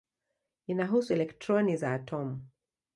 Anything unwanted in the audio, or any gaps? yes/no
no